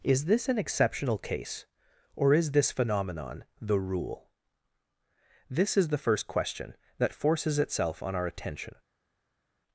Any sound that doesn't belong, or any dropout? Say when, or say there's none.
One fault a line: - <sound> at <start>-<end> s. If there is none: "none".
none